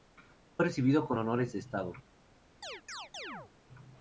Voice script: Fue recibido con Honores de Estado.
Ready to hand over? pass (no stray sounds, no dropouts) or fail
fail